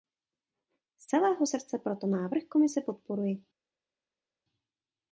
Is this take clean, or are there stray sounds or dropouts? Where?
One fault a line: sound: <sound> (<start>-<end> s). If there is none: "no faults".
no faults